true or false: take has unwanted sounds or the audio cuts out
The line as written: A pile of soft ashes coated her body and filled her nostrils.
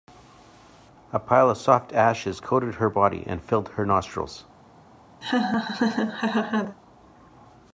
true